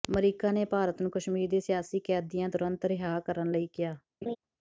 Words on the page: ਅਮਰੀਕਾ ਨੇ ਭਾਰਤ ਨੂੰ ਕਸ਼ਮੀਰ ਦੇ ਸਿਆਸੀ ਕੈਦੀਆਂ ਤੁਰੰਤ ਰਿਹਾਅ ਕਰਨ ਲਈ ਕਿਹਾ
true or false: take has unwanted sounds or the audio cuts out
true